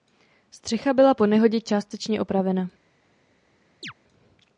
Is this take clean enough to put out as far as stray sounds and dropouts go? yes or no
no